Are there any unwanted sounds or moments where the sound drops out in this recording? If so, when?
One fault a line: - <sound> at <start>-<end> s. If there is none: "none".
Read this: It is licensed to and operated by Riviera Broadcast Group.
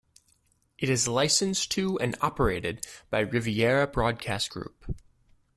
none